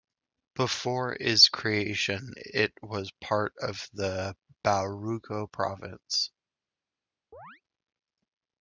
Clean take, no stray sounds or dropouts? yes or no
no